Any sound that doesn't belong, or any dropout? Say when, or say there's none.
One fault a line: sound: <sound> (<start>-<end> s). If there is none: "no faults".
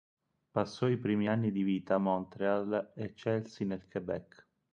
no faults